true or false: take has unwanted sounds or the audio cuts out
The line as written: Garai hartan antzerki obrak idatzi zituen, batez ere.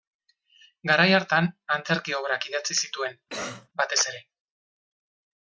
true